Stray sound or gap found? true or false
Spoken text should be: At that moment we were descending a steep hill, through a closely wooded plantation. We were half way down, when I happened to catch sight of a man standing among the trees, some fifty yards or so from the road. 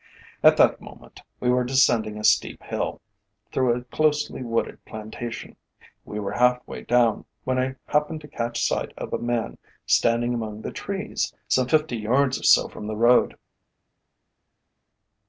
false